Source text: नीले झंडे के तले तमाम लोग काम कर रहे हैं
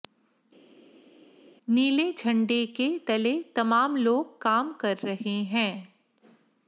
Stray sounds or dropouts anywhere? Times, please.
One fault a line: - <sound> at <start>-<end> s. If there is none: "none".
none